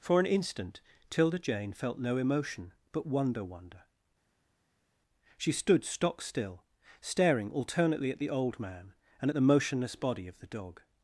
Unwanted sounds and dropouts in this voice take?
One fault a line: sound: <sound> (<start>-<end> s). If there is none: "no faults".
no faults